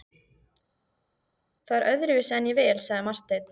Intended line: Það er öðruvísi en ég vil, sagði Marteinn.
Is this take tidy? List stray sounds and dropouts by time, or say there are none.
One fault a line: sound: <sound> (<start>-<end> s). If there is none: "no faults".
no faults